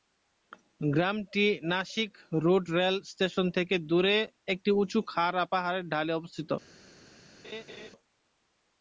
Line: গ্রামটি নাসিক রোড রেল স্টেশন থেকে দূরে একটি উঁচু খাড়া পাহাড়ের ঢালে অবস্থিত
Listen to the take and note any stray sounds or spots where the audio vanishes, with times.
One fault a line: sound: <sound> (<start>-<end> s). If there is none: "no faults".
sound: laugh (7.4-7.9 s)